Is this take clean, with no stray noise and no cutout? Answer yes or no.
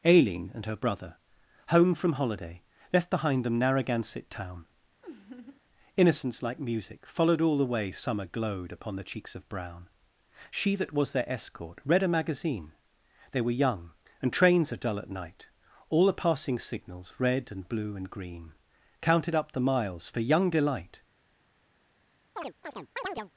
no